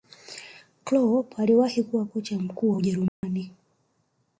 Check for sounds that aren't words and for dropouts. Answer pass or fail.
fail